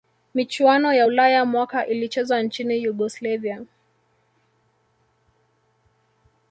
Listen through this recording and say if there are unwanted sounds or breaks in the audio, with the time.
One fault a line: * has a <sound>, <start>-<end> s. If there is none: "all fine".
all fine